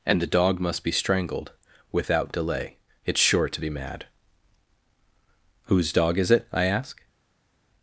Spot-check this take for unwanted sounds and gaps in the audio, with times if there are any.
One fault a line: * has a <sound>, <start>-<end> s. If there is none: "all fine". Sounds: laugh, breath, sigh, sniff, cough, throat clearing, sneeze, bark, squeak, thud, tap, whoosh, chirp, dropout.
all fine